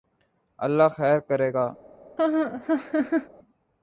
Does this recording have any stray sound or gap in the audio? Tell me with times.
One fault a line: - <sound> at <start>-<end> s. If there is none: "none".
- laugh at 2.2-3.3 s